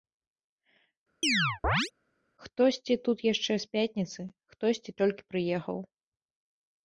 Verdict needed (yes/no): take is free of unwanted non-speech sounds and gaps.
no